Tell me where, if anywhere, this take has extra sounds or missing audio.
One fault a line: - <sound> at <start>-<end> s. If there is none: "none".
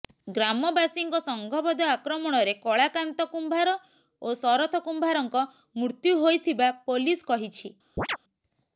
- chirp at 8.0-8.2 s